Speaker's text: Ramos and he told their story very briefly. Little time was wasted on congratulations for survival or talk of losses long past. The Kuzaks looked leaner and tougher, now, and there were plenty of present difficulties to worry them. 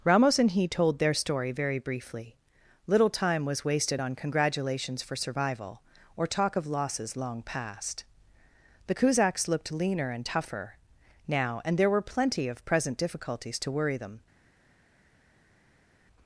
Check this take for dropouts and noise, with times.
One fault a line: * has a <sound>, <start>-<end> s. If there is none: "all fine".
all fine